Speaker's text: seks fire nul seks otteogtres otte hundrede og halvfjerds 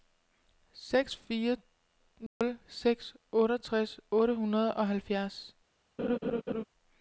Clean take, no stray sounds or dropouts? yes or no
no